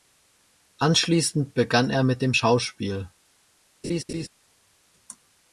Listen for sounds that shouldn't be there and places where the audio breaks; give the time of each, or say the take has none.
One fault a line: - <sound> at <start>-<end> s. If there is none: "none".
- laugh at 3.8-4.3 s